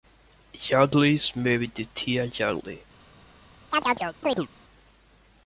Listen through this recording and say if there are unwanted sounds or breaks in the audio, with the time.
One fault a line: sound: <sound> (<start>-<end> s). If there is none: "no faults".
sound: chirp (3.7-4.5 s)